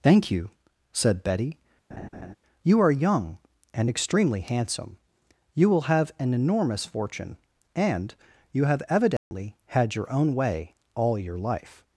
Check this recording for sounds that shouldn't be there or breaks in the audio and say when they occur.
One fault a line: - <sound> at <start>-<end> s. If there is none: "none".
- laugh at 1.9-2.4 s
- dropout at 9.2-9.3 s